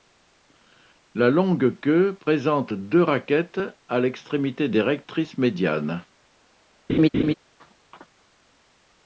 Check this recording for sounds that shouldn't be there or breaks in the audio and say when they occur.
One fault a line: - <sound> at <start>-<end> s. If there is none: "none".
- laugh at 6.9-7.3 s